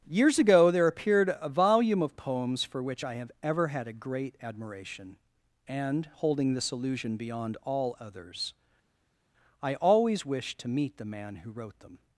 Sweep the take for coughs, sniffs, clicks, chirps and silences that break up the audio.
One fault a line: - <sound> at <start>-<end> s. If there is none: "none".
none